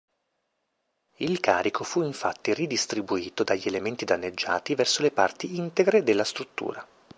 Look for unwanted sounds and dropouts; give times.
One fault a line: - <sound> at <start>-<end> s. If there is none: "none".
none